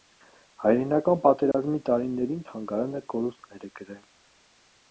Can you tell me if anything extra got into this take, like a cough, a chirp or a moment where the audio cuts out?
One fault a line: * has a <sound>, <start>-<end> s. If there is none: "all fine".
* has a dropout, 1.5-1.5 s